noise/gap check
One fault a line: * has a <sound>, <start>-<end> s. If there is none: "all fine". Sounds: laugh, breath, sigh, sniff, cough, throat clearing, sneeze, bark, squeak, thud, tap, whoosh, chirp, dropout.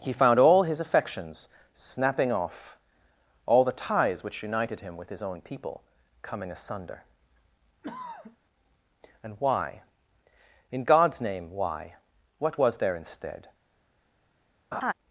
* has a throat clearing, 7.8-8.4 s
* has a laugh, 14.7-14.9 s